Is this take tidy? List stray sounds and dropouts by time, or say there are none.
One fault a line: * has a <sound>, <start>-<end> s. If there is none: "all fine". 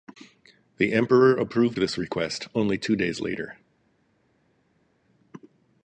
all fine